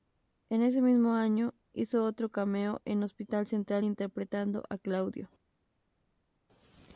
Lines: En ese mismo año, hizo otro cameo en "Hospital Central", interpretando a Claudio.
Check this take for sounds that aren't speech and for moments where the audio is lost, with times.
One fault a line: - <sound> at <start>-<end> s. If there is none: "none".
none